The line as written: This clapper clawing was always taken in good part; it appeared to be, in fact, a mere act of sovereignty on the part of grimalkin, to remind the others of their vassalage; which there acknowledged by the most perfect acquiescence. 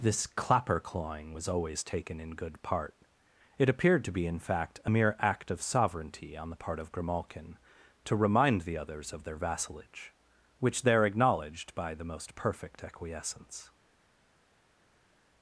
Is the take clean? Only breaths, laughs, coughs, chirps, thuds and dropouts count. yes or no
yes